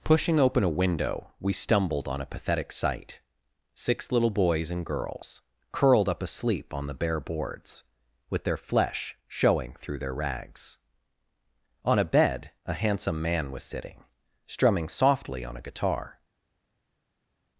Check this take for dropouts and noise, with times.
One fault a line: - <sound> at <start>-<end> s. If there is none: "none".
none